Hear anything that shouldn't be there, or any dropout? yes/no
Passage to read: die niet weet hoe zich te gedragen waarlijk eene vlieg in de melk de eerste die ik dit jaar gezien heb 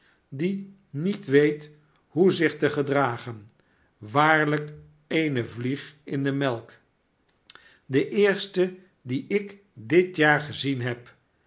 no